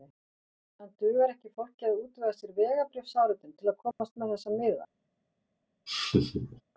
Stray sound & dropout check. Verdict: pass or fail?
fail